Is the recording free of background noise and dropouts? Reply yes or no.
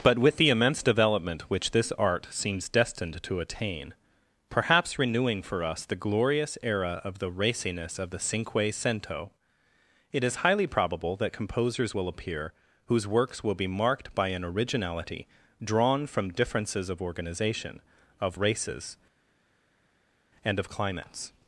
yes